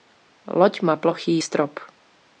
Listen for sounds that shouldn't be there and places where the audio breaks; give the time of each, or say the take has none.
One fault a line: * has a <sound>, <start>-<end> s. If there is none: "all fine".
all fine